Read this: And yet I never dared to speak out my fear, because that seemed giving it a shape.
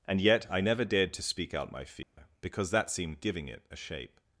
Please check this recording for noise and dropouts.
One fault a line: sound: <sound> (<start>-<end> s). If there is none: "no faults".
sound: dropout (2.0-2.2 s)